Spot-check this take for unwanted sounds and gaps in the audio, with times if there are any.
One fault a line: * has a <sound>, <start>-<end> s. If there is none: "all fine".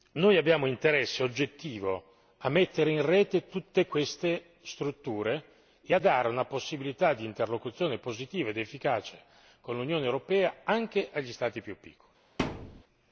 * has a thud, 12.4-12.8 s